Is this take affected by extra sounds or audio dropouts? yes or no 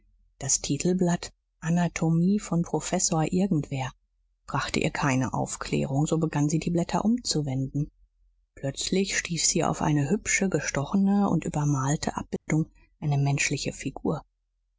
yes